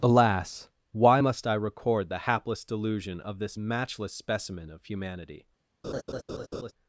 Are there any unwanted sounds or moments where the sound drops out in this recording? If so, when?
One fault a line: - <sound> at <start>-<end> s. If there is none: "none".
- laugh at 5.8-6.7 s